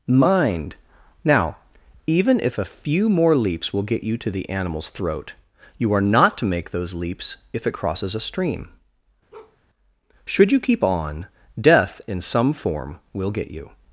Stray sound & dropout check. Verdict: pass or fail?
fail